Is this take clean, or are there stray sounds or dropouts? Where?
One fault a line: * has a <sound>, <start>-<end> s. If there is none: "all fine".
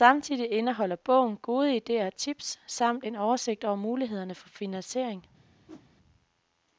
* has a whoosh, 5.7-5.9 s